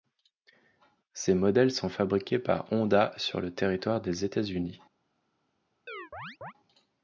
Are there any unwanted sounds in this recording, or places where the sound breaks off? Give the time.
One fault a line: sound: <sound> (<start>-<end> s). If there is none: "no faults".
sound: chirp (5.9-6.5 s)